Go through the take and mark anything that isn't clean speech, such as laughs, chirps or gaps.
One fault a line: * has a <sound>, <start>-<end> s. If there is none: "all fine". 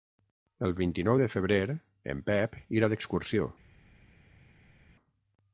all fine